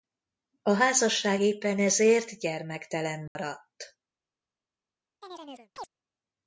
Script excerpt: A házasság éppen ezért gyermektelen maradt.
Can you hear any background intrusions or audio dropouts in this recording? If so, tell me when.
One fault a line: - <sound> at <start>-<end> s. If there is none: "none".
- dropout at 3.3-3.4 s
- chirp at 5.2-5.9 s